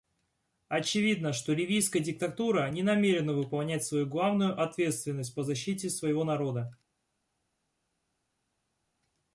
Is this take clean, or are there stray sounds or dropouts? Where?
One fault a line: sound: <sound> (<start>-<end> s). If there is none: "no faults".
no faults